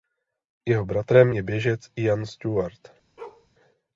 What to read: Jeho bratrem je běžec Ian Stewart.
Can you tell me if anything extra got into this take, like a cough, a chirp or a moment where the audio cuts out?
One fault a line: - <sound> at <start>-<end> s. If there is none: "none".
- bark at 3.2-3.5 s